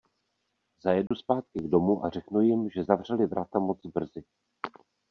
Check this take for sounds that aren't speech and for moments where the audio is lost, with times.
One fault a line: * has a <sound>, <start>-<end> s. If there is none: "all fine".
* has a dropout, 1.1-1.1 s